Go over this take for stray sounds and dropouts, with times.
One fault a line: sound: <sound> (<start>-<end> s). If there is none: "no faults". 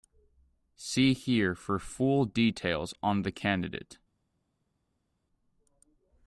no faults